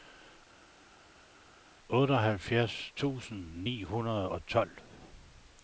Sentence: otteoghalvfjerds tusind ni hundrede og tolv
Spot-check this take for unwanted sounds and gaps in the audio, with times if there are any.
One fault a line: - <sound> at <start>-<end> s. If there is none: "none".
none